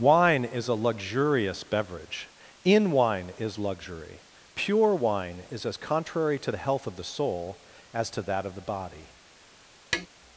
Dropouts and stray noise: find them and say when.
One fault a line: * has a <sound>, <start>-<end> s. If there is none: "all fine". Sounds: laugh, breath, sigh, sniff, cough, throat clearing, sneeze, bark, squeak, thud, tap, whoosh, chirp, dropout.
* has a tap, 9.9-10.1 s